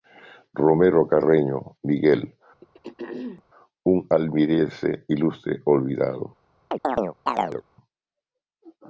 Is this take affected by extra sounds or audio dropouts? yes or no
yes